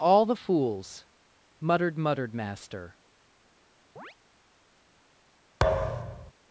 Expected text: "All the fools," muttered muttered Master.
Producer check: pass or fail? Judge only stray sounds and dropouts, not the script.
fail